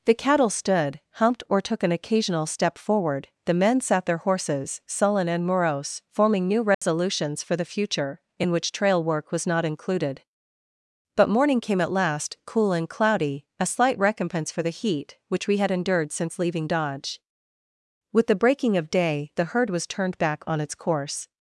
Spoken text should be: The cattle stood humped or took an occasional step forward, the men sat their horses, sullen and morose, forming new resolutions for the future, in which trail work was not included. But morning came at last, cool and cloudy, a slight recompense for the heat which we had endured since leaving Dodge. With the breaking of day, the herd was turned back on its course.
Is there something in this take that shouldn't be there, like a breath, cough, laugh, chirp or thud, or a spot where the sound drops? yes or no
yes